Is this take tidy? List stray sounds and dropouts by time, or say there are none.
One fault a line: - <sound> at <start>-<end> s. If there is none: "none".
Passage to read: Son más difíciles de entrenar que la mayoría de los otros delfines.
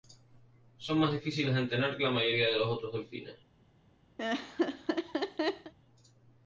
- laugh at 4.2-5.7 s